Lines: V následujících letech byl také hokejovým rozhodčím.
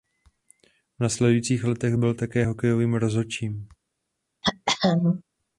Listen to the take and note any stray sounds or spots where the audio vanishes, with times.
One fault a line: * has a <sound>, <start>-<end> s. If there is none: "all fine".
* has a throat clearing, 4.4-5.2 s